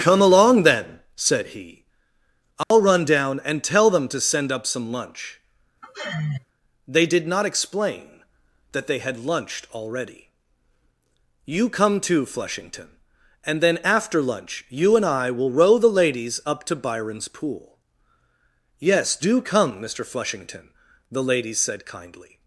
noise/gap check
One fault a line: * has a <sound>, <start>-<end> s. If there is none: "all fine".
* has a dropout, 2.6-2.7 s
* has a sigh, 5.8-6.5 s